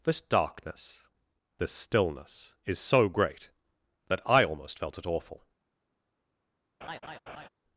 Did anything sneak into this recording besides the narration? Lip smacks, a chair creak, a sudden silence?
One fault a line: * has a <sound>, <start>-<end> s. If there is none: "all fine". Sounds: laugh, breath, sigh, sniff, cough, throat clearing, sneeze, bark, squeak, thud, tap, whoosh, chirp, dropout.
* has a laugh, 6.8-7.5 s